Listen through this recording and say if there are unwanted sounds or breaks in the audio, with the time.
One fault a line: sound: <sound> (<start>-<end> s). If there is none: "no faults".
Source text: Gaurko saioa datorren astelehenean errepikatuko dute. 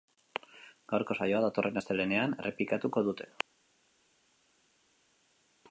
no faults